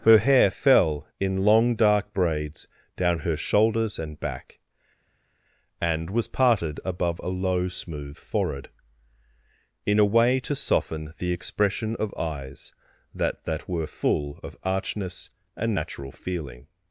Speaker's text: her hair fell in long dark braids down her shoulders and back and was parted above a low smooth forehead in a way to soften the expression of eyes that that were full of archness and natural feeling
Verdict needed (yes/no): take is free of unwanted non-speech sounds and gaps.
yes